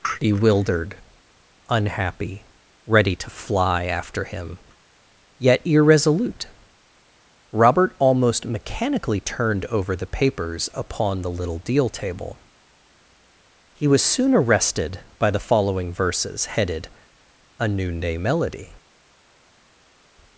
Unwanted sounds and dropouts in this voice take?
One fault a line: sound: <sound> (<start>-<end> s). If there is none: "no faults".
no faults